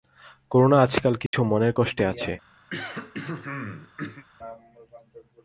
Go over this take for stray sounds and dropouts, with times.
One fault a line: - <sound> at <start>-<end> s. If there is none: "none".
- dropout at 1.3-1.3 s
- throat clearing at 2.7-4.2 s